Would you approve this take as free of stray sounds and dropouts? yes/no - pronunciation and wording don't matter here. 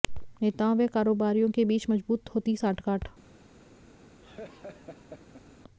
no